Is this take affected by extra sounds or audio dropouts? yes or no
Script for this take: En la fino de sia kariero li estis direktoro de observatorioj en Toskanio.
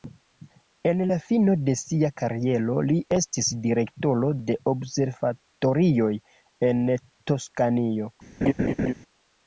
yes